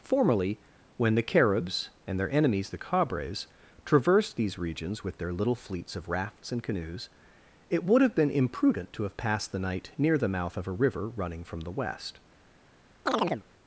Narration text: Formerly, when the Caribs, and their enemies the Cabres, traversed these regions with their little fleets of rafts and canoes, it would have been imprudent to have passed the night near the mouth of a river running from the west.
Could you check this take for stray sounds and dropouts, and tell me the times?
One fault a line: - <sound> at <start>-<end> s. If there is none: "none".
- chirp at 13.1-13.4 s